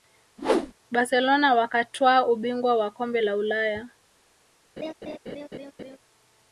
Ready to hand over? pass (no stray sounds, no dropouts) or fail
fail